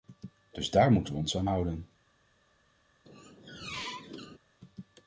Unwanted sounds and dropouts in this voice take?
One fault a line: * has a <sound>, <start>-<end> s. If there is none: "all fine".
* has a squeak, 3.1-4.4 s